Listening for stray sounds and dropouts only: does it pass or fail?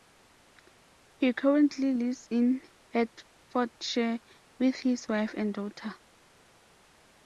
pass